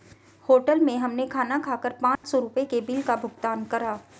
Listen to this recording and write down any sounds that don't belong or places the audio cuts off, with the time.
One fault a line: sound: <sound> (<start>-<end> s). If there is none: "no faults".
sound: dropout (2.2-2.2 s)